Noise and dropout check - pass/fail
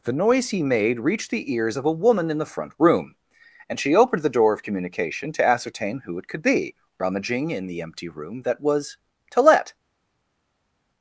pass